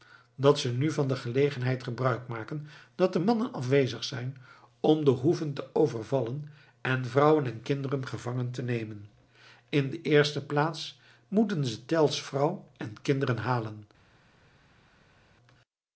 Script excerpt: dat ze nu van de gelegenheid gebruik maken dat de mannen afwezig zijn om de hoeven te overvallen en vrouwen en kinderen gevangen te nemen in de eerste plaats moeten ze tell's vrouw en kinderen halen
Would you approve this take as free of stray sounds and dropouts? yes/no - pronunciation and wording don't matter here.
yes